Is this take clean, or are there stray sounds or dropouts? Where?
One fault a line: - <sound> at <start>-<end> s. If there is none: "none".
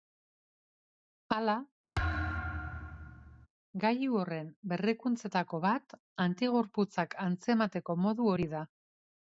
- thud at 1.9-3.5 s